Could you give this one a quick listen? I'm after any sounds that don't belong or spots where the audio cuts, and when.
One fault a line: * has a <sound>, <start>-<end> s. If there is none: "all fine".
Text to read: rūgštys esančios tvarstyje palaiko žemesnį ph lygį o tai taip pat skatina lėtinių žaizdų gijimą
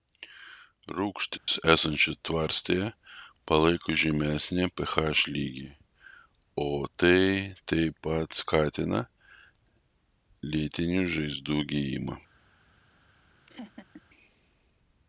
* has a dropout, 1.4-1.5 s
* has a laugh, 13.5-14.0 s